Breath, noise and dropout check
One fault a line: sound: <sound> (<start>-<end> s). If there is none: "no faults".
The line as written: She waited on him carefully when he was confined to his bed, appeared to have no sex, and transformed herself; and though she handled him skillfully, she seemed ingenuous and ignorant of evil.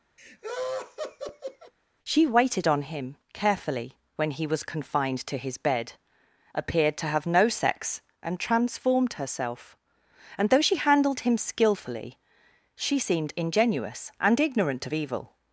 sound: laugh (0.2-1.7 s)